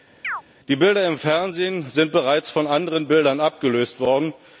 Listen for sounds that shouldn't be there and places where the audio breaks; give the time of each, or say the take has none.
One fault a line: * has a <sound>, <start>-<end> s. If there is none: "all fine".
* has a chirp, 0.2-0.4 s